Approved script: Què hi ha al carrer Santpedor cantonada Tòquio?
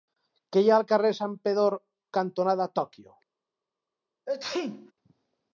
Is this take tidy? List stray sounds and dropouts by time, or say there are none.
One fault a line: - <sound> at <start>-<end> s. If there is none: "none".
- sneeze at 4.3-4.9 s